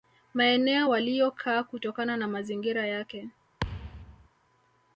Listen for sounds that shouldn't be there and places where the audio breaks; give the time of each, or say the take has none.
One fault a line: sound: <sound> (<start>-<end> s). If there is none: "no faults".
sound: thud (3.6-4.3 s)